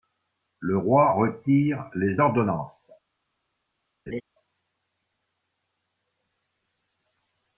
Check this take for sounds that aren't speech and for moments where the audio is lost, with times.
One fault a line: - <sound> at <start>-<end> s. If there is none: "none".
- laugh at 4.1-4.2 s